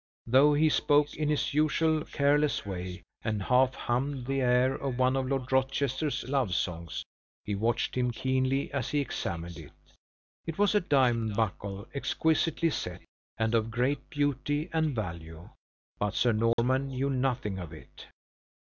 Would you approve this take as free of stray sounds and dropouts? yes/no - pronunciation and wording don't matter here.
no